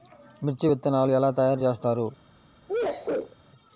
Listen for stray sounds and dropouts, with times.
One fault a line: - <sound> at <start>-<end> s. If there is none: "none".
- sneeze at 2.7-3.4 s